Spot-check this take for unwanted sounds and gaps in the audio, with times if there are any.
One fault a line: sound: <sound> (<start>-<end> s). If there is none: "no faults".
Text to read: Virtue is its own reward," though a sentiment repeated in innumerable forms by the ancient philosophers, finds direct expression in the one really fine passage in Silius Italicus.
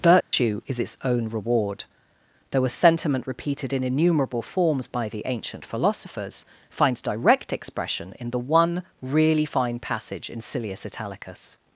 sound: dropout (0.2-0.3 s)